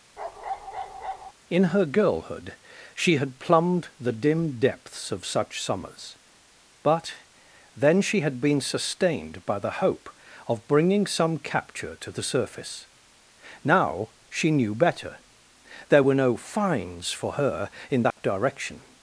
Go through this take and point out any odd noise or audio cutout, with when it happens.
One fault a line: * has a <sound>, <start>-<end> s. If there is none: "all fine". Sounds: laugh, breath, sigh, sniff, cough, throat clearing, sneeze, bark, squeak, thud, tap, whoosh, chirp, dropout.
* has a bark, 0.2-1.3 s
* has a dropout, 18.1-18.2 s